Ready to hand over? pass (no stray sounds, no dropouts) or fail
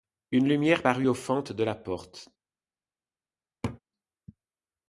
fail